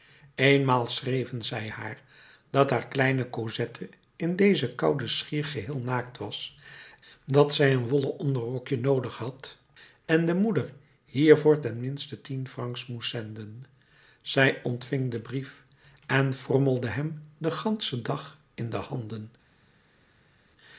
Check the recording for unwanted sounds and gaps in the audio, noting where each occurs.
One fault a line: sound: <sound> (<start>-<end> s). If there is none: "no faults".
no faults